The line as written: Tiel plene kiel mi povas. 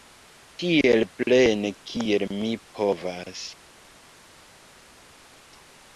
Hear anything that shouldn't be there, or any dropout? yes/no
no